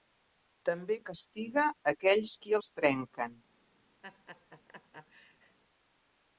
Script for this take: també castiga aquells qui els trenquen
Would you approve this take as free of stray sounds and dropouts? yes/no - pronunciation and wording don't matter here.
no